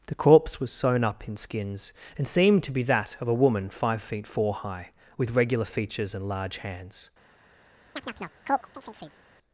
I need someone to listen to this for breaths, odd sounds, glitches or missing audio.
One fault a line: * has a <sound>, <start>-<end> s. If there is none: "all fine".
* has a chirp, 8.0-9.2 s